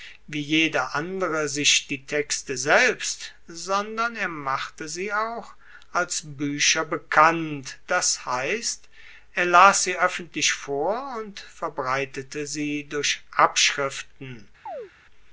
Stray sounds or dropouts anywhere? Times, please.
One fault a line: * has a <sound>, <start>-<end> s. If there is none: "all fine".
* has a chirp, 14.7-14.9 s